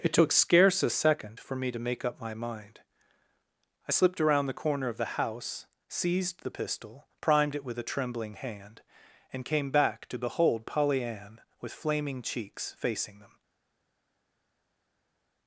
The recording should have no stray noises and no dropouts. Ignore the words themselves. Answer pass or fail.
pass